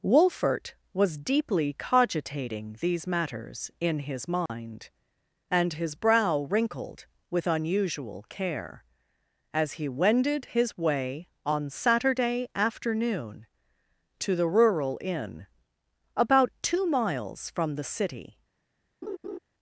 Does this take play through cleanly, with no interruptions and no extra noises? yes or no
no